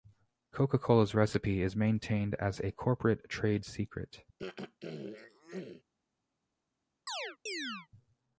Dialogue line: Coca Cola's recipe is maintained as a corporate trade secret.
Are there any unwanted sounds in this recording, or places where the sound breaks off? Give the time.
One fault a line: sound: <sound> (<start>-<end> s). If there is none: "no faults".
sound: throat clearing (4.4-5.8 s)
sound: chirp (7.1-7.9 s)